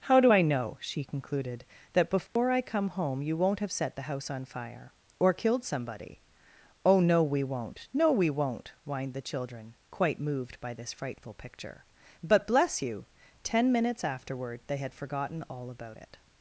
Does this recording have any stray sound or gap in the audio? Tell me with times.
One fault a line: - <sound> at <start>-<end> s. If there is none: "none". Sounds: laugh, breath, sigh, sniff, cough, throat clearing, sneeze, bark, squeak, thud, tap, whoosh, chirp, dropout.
- dropout at 2.3-2.4 s